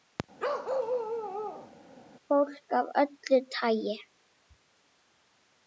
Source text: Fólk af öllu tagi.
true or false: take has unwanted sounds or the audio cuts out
true